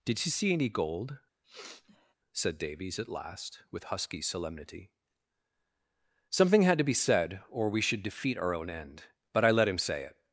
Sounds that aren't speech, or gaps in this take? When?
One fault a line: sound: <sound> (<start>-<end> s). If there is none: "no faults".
sound: sniff (1.4-2.1 s)